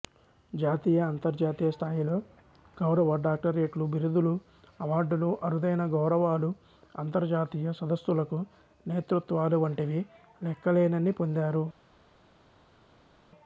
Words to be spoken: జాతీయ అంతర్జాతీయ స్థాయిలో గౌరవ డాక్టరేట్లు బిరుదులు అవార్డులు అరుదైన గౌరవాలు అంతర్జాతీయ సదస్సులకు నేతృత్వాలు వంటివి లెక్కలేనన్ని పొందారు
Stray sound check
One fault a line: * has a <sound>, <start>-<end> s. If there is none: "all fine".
all fine